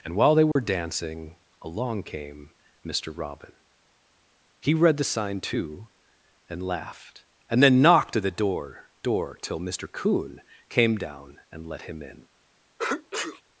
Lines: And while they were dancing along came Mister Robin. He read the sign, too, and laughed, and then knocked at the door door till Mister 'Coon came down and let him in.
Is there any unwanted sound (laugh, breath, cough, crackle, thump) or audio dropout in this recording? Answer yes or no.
yes